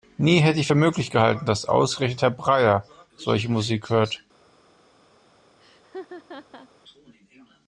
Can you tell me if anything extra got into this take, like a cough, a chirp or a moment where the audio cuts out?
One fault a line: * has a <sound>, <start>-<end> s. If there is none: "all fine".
* has a laugh, 5.6-6.7 s